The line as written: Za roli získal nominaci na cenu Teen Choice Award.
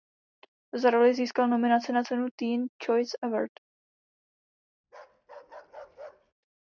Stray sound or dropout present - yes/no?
yes